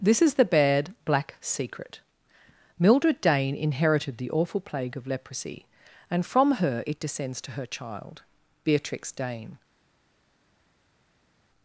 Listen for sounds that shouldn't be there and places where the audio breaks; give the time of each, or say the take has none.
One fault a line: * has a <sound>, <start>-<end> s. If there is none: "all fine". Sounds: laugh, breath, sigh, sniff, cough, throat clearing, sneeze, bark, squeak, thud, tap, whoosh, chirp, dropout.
all fine